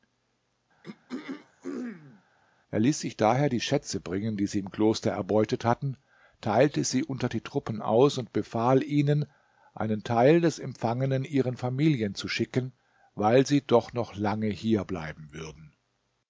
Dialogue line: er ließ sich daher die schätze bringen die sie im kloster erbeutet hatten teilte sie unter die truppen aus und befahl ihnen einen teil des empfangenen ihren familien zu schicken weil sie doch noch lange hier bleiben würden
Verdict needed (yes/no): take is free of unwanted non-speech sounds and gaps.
no